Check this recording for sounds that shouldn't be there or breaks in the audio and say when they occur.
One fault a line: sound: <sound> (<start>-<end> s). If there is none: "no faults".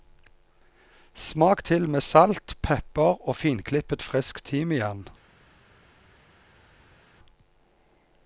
no faults